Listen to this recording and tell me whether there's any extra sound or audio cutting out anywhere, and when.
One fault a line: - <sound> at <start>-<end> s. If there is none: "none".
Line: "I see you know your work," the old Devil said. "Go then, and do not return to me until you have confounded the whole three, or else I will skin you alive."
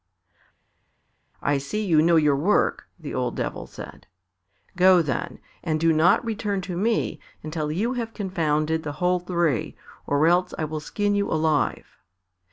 none